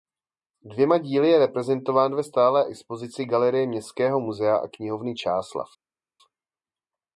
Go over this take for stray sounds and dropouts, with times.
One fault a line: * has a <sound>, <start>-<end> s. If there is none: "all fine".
all fine